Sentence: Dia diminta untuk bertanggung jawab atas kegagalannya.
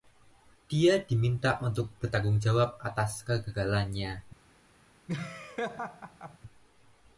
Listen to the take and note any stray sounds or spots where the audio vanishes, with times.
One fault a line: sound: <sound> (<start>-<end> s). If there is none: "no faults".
sound: laugh (5.1-6.4 s)